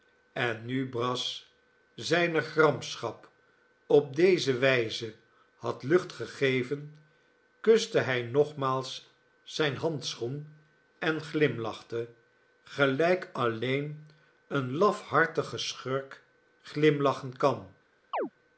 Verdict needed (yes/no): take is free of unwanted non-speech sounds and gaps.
no